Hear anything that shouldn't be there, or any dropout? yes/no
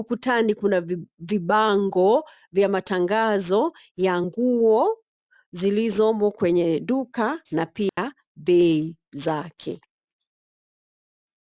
yes